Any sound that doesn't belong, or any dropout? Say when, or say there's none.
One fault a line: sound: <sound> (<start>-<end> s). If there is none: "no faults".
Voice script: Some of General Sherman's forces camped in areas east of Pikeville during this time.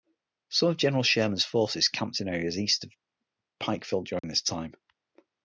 sound: dropout (4.2-4.2 s)